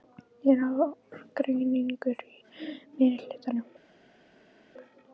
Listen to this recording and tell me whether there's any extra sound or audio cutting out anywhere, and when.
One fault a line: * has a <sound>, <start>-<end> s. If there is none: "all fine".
all fine